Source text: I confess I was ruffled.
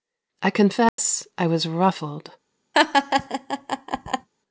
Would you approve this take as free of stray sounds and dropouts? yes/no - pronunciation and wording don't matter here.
no